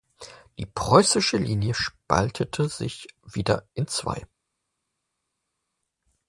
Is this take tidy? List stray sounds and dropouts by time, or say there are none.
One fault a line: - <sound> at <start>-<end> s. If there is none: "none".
none